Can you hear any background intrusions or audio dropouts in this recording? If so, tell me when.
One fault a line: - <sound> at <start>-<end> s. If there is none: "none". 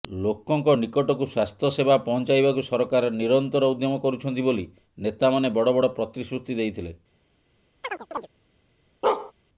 - chirp at 7.8-8.3 s
- bark at 9.0-9.3 s